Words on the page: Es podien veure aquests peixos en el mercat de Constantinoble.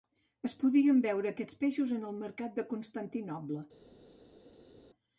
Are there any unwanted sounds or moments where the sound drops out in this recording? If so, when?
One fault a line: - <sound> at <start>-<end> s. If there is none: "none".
none